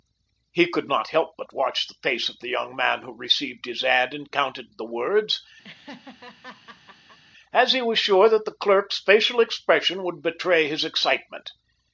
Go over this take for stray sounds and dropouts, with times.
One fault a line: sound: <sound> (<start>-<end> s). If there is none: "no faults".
sound: laugh (5.6-7.2 s)